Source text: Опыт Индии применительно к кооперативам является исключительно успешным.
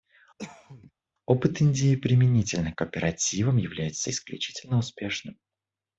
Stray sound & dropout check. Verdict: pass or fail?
fail